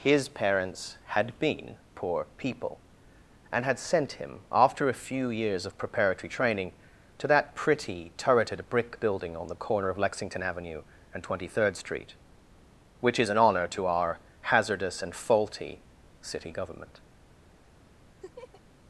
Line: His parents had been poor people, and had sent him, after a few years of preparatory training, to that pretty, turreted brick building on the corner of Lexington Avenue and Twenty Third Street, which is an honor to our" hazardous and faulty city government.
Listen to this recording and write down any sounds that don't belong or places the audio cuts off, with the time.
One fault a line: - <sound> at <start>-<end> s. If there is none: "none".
- laugh at 18.2-18.6 s